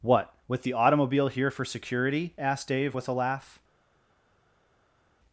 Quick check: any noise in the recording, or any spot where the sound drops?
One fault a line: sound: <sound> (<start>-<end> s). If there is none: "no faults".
no faults